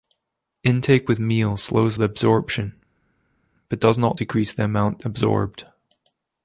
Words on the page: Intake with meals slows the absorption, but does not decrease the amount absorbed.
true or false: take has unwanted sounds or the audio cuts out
false